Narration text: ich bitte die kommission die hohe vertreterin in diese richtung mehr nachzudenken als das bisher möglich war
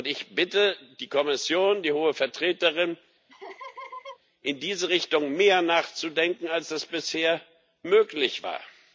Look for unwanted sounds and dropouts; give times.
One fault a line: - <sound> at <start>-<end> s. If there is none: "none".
- laugh at 3.3-4.2 s